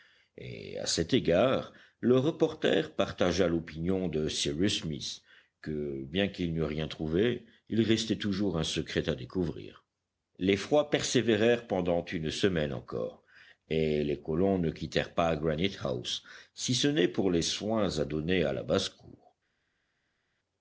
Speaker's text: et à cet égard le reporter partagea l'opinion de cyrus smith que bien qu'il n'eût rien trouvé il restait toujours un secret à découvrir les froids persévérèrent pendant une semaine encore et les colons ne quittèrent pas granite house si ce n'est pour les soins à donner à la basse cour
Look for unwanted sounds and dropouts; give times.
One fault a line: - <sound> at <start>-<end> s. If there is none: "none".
none